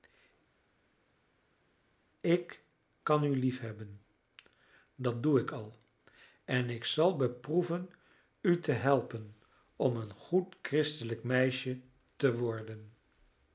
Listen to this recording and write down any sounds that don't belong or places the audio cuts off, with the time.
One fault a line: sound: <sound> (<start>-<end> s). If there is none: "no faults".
no faults